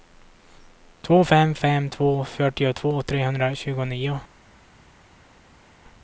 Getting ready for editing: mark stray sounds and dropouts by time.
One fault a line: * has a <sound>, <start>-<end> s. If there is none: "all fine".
all fine